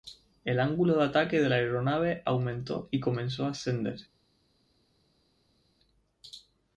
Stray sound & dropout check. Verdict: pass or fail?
pass